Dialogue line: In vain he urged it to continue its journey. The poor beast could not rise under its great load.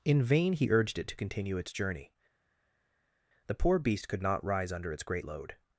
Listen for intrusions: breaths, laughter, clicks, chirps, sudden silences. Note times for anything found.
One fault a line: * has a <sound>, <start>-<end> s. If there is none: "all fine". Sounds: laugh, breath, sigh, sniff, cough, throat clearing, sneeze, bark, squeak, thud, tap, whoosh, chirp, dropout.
all fine